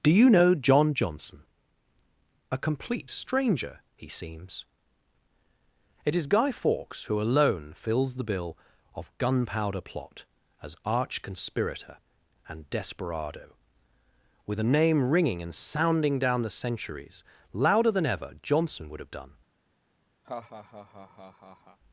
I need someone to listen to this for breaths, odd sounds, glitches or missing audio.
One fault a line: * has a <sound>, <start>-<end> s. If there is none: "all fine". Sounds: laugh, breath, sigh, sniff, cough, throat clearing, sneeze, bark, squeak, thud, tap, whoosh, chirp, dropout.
* has a laugh, 20.2-21.8 s